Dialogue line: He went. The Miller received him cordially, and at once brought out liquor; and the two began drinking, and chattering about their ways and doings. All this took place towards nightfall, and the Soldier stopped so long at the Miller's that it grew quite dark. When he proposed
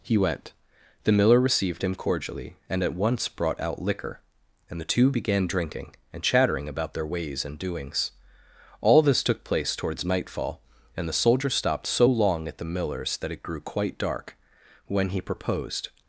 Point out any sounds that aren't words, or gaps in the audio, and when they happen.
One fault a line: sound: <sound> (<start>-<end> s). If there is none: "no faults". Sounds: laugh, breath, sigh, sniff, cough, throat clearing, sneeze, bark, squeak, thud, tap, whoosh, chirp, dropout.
no faults